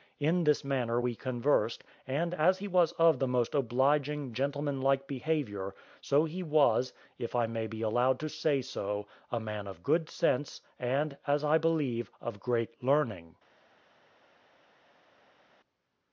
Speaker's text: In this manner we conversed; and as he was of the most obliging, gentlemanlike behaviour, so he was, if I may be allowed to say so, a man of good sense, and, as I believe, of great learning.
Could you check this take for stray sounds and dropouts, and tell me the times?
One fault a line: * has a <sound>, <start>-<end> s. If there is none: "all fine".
all fine